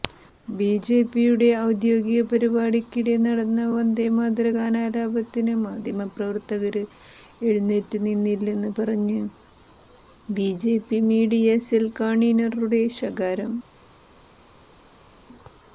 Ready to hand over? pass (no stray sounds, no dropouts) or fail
pass